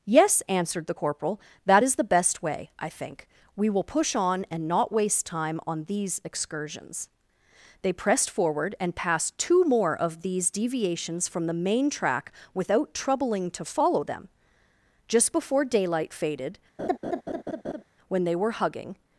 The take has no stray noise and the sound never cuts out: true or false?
false